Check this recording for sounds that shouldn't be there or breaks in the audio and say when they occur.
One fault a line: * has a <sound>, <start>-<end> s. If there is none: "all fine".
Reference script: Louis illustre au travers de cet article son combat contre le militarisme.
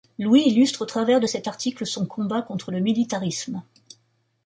all fine